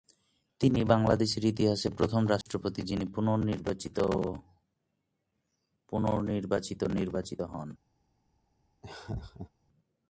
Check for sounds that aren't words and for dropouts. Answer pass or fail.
fail